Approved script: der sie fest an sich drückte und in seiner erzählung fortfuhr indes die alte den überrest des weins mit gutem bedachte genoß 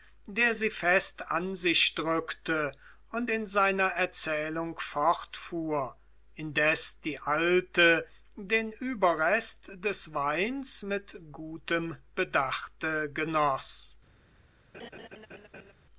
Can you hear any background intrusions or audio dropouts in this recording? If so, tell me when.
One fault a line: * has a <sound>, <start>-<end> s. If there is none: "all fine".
* has a laugh, 14.7-15.7 s